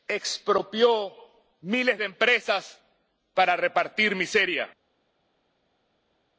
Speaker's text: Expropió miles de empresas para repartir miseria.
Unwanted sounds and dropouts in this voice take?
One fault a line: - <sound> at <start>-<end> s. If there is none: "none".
none